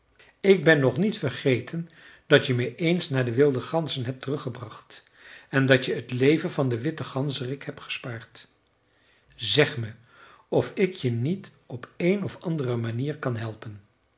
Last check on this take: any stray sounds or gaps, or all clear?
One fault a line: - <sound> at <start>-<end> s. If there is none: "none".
none